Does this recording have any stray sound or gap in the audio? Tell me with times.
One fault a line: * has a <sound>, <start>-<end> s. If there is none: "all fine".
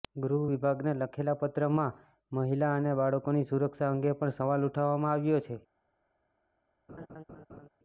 * has a laugh, 6.9-7.7 s